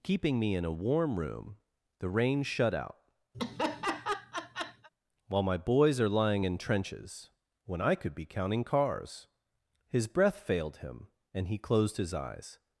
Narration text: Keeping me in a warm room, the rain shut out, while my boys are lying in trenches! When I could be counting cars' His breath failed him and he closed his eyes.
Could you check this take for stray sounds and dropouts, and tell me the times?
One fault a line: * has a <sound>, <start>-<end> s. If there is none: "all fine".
* has a laugh, 3.3-4.9 s